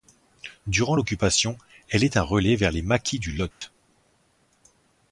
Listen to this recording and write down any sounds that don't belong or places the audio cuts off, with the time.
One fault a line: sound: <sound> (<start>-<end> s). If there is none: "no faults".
sound: dropout (3.5-3.6 s)